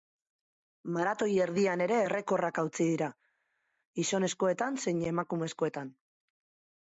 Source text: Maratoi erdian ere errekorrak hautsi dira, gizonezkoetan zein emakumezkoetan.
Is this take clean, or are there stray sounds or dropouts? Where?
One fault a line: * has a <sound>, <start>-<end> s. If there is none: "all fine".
all fine